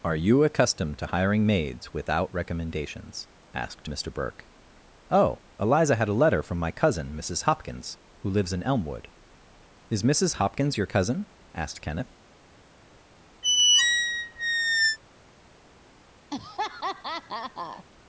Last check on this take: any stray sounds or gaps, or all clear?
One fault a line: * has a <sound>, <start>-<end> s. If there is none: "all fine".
* has a squeak, 13.4-15.0 s
* has a laugh, 16.3-17.8 s